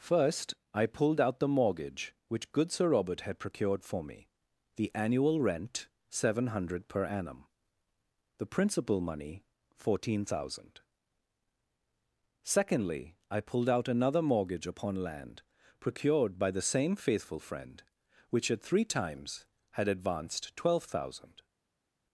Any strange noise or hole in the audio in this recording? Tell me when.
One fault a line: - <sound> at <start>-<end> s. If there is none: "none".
none